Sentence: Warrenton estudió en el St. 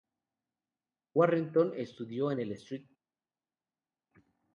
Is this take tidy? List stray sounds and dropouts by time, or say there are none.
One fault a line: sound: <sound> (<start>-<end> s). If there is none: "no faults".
no faults